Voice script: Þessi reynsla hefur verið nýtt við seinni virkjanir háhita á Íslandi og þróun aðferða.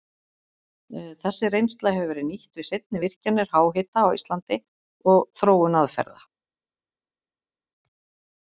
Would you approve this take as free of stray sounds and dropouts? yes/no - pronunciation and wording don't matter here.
yes